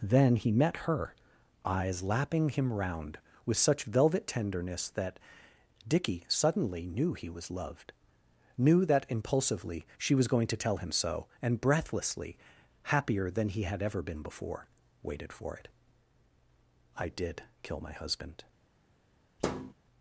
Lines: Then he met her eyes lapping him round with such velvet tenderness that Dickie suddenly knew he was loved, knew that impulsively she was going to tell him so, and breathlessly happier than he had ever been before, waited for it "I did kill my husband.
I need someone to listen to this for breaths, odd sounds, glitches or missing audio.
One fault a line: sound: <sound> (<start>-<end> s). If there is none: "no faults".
sound: thud (19.4-19.7 s)